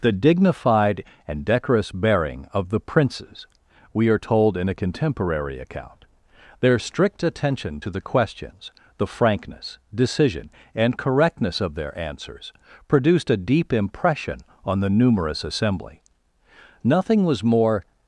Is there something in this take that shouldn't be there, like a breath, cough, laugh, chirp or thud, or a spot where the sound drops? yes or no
no